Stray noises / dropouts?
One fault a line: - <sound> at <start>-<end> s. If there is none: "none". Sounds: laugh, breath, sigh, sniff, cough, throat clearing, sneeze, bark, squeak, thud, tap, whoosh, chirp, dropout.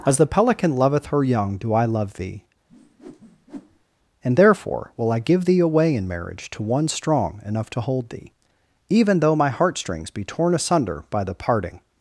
- whoosh at 2.7-3.8 s